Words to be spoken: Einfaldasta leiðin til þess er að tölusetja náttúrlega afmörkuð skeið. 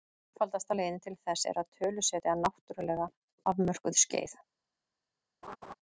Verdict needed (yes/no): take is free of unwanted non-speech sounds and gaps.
no